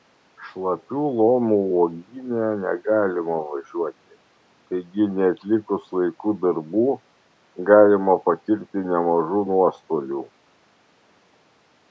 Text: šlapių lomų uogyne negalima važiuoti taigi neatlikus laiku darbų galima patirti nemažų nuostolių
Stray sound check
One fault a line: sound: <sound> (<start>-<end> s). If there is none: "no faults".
no faults